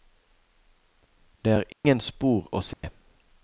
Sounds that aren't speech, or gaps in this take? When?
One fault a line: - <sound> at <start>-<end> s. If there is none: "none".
- dropout at 1.7-1.8 s
- dropout at 2.7-2.8 s